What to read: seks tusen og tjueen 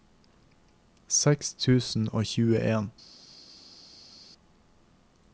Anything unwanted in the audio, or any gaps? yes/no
no